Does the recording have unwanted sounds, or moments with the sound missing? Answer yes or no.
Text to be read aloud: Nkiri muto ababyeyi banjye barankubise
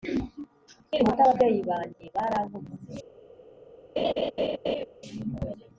yes